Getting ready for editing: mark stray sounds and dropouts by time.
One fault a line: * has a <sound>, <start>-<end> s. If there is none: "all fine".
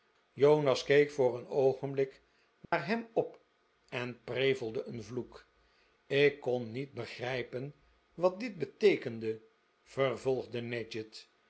* has a dropout, 2.6-2.7 s